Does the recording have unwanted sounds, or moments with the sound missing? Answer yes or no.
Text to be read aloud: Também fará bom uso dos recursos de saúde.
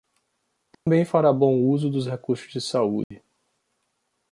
yes